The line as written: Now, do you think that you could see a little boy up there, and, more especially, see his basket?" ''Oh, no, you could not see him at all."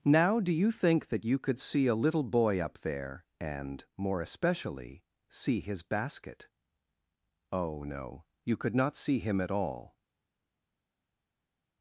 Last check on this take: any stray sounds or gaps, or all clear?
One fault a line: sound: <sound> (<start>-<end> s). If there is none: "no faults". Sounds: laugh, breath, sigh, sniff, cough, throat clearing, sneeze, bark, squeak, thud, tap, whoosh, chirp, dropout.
no faults